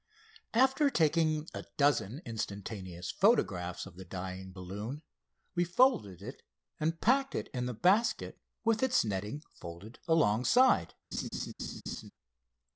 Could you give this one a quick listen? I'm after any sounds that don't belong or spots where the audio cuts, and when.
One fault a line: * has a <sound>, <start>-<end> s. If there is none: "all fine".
* has a laugh, 11.1-12.1 s